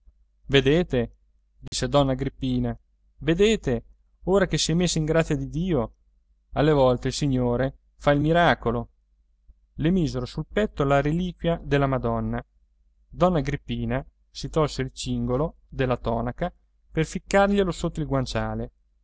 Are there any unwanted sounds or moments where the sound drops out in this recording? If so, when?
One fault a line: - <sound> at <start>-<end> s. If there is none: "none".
- dropout at 1.7-1.7 s